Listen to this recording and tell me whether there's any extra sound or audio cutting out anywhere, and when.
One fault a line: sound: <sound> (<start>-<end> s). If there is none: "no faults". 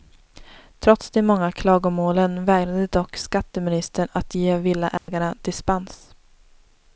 sound: dropout (5.0-5.1 s)